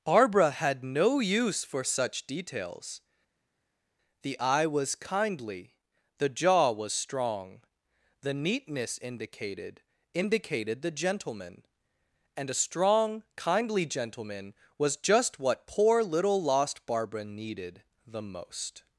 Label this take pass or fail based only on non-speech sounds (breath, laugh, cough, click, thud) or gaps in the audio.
pass